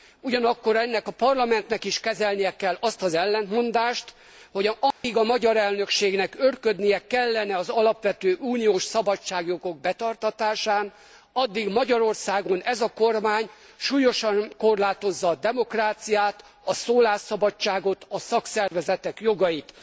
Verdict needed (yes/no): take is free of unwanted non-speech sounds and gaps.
no